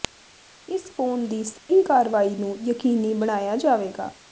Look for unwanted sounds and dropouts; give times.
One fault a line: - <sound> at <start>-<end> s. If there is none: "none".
- dropout at 1.6-1.7 s